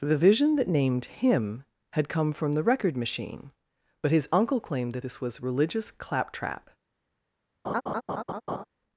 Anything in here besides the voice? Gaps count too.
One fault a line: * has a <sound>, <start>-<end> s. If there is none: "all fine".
* has a laugh, 7.6-8.6 s